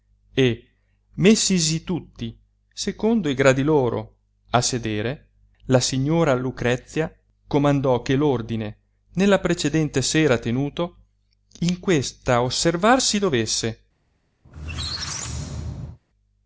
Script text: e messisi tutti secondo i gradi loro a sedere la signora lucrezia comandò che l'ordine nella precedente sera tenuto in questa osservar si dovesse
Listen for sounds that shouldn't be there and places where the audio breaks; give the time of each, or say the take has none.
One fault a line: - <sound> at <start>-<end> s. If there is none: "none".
- squeak at 14.4-16.0 s